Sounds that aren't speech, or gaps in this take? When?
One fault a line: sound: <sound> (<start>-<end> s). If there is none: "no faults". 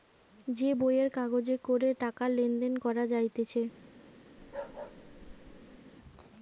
sound: bark (4.4-5.8 s)